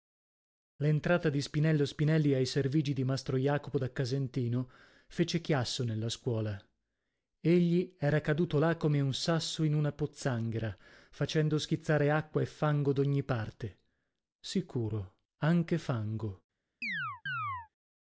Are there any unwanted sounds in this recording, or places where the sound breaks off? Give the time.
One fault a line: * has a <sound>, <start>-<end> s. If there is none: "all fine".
* has a chirp, 16.8-17.7 s